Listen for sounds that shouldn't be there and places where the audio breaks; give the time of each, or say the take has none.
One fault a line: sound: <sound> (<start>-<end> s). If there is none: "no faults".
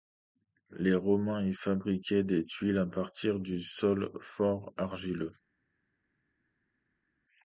no faults